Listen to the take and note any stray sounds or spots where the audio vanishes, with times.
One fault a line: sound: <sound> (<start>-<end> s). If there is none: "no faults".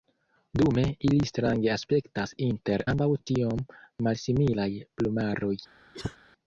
sound: cough (5.9-6.2 s)